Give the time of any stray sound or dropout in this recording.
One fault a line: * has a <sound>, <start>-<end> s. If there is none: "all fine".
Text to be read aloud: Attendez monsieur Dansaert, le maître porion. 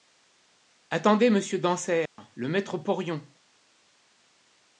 * has a dropout, 2.1-2.2 s